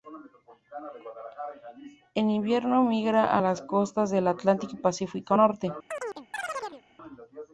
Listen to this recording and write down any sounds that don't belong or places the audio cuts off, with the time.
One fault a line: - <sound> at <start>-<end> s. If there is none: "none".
- chirp at 5.9-6.8 s